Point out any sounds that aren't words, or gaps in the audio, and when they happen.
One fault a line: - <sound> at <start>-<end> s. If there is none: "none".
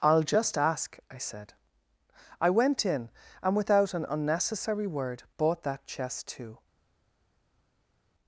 none